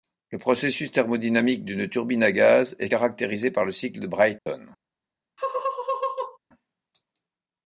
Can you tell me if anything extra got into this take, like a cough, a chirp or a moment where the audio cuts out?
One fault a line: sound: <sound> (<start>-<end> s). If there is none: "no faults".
sound: dropout (4.4-4.5 s)
sound: laugh (5.4-6.4 s)